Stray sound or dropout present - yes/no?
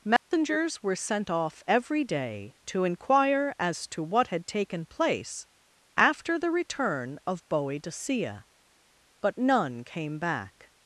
yes